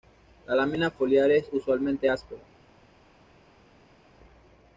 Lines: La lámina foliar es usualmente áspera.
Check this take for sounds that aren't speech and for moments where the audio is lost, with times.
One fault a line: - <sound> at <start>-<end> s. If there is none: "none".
none